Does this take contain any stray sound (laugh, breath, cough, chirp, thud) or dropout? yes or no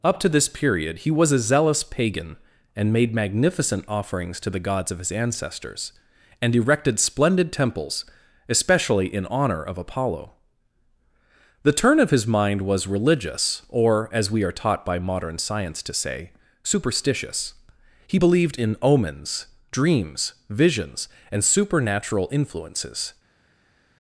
no